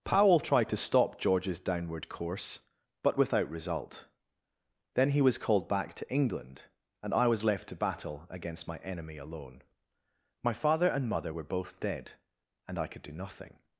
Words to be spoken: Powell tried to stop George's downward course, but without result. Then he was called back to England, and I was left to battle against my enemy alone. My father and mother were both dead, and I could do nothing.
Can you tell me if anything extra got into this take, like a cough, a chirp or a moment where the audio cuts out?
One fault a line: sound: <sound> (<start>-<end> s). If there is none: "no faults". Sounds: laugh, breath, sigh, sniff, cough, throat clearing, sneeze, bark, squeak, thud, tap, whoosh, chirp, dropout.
no faults